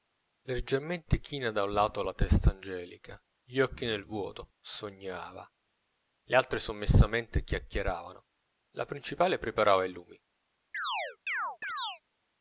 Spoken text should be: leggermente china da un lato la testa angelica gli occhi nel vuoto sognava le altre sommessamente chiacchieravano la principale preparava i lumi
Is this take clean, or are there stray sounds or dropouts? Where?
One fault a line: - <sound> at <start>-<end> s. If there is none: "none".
- chirp at 10.7-12.0 s